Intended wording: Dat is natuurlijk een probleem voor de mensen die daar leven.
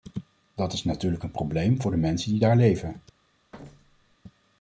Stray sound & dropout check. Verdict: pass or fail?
fail